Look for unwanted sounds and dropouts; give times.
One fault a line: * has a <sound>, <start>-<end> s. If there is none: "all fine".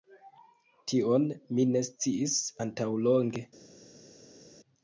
all fine